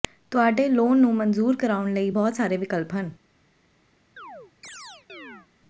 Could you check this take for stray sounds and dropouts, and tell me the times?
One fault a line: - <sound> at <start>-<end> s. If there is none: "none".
- chirp at 4.2-5.5 s